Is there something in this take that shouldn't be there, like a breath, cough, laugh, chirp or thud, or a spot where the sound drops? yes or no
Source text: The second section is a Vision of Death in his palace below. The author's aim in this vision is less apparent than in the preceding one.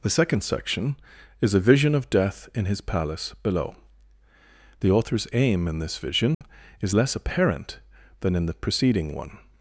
yes